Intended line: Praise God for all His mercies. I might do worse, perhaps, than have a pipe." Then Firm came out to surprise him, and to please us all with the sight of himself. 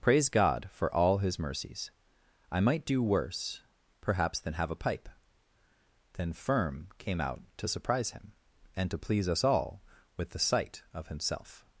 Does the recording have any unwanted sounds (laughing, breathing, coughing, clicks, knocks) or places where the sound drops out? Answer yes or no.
no